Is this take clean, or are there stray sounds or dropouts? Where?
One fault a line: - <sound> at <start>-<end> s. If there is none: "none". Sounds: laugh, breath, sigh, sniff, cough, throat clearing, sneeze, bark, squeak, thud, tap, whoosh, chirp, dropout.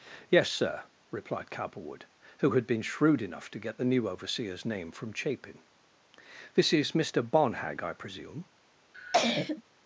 - cough at 8.9-9.6 s